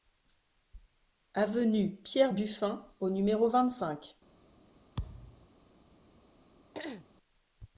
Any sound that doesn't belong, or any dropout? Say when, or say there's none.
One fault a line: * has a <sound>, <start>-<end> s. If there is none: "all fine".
* has a thud, 5.0-5.5 s
* has a throat clearing, 6.7-7.1 s